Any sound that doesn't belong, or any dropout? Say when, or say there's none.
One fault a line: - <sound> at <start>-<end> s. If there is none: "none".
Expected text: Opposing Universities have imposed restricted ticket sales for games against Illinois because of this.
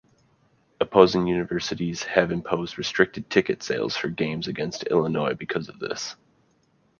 none